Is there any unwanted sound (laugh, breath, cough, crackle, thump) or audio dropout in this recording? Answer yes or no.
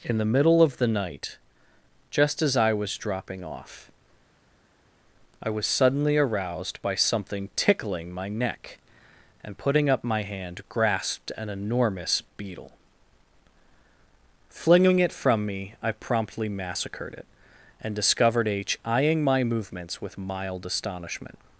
no